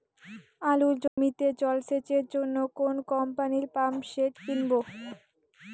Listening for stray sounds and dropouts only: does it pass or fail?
fail